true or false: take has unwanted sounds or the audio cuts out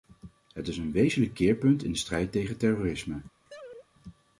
true